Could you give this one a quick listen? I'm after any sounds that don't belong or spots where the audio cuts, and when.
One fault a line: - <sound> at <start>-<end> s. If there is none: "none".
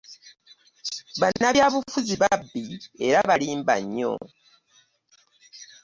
- dropout at 1.4-1.4 s